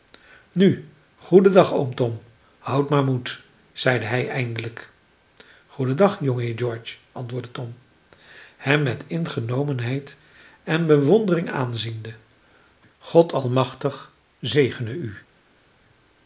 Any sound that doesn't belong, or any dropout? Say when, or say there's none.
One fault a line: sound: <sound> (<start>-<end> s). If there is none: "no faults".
no faults